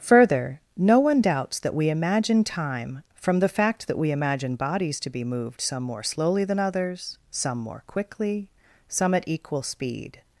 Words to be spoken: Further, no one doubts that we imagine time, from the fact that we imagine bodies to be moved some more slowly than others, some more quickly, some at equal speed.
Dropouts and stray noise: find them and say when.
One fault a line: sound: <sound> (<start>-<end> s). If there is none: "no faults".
no faults